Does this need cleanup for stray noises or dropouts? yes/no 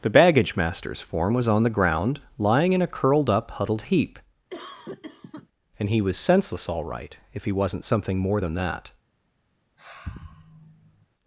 yes